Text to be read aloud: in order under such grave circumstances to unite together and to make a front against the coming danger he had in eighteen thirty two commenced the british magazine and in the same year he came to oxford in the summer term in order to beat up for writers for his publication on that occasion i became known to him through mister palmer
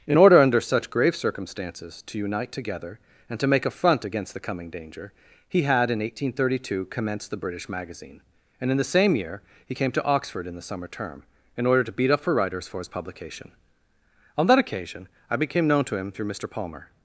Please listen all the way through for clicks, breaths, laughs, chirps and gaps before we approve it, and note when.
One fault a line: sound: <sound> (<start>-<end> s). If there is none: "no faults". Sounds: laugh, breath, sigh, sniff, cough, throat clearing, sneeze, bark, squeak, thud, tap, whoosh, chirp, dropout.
no faults